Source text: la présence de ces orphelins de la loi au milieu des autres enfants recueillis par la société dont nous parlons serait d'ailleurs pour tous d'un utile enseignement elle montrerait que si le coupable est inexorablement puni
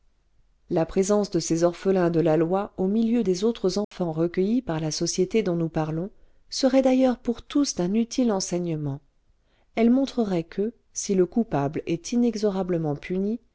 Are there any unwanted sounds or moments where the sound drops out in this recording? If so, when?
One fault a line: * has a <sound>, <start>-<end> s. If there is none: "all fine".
* has a dropout, 3.8-3.9 s